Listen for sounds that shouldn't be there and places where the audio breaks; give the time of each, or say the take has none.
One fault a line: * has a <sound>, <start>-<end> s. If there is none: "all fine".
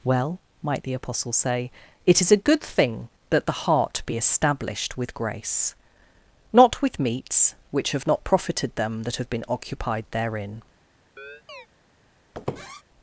* has a chirp, 11.2-11.7 s
* has a squeak, 12.3-12.8 s